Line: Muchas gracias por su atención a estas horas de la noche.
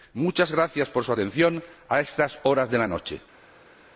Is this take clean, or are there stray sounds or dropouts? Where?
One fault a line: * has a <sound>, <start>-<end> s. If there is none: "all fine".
all fine